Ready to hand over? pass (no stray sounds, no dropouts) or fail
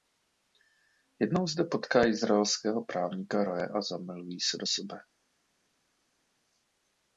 pass